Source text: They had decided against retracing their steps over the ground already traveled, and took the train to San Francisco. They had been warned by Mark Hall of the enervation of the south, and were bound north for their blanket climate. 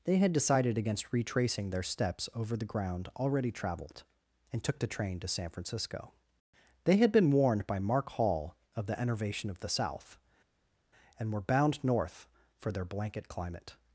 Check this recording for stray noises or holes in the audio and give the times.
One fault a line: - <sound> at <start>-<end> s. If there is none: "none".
none